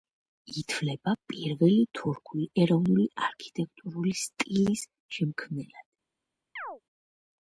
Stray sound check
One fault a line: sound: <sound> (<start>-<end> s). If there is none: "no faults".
sound: chirp (6.6-6.8 s)